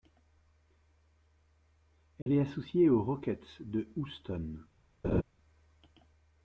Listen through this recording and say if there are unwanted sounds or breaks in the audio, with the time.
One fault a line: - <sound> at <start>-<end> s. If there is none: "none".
- dropout at 2.2-2.3 s
- laugh at 5.0-5.2 s